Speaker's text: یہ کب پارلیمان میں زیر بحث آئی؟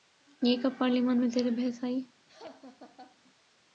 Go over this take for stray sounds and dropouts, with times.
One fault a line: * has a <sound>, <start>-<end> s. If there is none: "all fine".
* has a laugh, 2.3-3.2 s